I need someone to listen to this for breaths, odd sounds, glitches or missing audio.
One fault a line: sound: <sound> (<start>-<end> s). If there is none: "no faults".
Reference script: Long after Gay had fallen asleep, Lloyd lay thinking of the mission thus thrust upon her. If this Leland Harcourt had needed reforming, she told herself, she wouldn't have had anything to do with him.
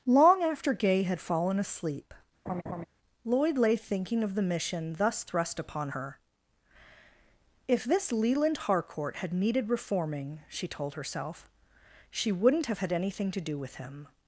sound: laugh (2.5-2.9 s)